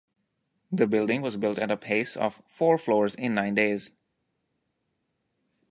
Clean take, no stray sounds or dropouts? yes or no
yes